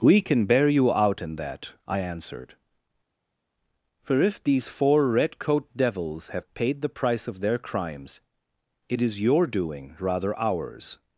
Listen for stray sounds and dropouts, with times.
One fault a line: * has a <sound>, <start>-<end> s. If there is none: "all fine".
all fine